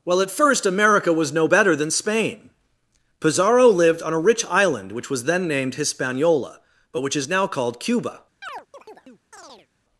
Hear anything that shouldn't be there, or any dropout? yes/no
yes